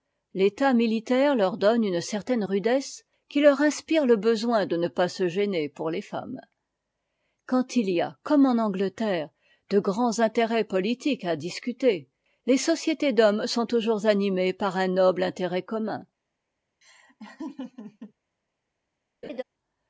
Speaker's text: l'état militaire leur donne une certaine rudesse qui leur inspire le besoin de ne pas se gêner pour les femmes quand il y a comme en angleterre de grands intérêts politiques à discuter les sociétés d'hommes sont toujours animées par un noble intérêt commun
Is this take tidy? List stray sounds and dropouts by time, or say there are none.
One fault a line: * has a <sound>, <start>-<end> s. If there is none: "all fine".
* has a laugh, 16.8-18.1 s
* has a laugh, 19.2-19.4 s